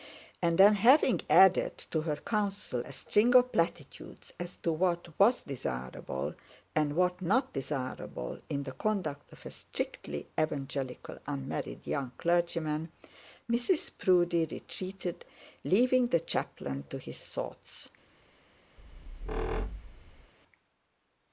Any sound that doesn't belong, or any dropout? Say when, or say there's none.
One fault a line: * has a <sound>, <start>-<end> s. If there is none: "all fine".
* has a squeak, 18.8-20.3 s